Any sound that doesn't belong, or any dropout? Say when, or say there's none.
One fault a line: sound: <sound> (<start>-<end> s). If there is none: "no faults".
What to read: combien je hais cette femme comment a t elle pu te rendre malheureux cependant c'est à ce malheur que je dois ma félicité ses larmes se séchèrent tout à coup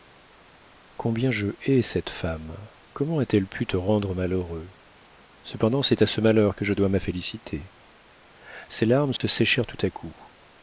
sound: dropout (9.2-9.2 s)